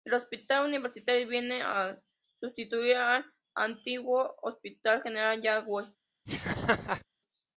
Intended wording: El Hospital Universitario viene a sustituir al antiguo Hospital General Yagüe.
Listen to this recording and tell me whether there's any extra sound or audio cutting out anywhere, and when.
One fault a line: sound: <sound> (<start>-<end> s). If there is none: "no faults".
sound: laugh (6.3-7.1 s)